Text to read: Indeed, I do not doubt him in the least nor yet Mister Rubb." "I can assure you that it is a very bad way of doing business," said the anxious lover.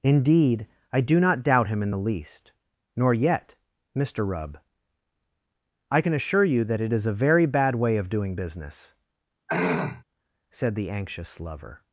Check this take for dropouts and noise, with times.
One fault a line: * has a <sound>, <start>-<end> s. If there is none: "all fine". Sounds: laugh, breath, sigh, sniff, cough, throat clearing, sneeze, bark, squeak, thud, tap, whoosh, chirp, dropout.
* has a throat clearing, 9.5-10.0 s